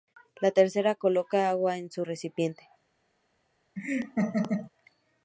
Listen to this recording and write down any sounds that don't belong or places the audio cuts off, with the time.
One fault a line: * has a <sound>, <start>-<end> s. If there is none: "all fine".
* has a laugh, 3.8-4.7 s